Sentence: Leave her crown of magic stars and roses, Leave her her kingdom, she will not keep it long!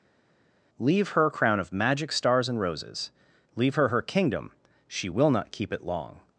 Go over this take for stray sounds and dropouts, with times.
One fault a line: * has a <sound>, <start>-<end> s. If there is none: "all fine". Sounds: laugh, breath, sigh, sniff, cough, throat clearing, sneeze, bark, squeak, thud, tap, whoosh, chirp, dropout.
all fine